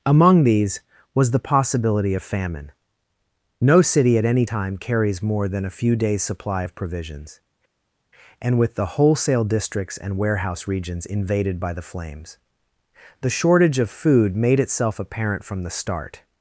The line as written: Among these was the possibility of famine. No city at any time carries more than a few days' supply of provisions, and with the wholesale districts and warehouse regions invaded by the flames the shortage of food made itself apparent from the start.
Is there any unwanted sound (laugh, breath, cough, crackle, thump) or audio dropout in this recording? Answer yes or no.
no